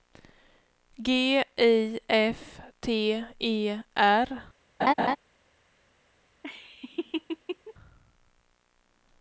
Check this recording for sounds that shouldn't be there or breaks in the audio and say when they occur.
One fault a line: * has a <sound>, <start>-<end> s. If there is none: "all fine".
* has a laugh, 4.8-5.2 s
* has a laugh, 6.4-7.7 s